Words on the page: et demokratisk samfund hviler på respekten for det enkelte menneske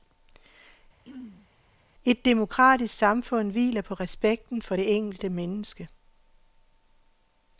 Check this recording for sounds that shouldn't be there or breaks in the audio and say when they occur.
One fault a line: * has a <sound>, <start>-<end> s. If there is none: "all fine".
* has a throat clearing, 1.0-1.5 s